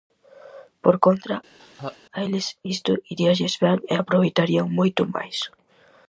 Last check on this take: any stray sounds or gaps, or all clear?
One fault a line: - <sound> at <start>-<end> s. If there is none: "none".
- laugh at 1.6-2.0 s